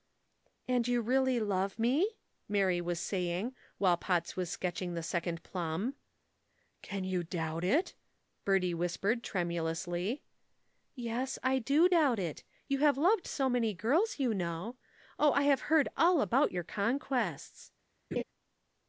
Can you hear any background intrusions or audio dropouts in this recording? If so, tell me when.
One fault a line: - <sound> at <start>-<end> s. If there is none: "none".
- laugh at 18.1-18.2 s